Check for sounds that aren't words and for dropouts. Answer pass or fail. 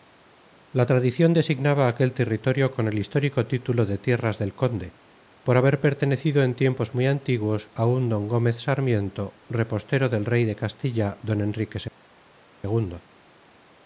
pass